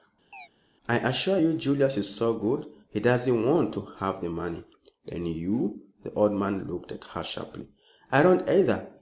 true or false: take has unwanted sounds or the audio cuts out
true